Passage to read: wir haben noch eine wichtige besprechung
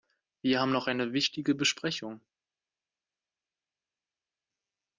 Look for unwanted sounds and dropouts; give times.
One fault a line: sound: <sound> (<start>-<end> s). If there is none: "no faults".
no faults